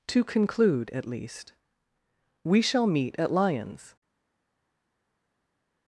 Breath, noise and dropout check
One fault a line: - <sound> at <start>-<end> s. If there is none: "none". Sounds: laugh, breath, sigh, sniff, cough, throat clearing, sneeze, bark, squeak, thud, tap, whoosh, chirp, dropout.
none